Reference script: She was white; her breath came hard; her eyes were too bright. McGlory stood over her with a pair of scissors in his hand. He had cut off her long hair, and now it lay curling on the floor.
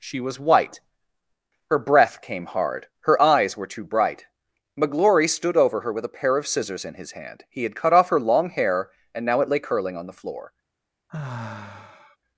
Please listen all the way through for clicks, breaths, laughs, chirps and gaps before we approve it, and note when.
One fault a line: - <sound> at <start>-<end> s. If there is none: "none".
- sigh at 11.1-12.2 s